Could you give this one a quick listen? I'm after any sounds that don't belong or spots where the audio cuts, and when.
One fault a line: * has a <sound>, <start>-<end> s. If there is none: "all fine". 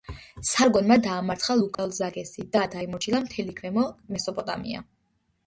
* has a dropout, 1.7-1.8 s